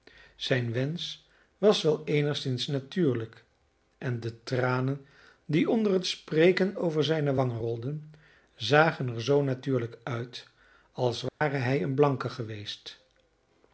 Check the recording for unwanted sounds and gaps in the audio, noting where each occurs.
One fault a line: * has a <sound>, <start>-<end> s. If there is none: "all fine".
* has a dropout, 11.3-11.4 s